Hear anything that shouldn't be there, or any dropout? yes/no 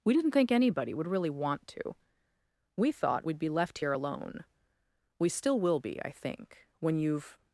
no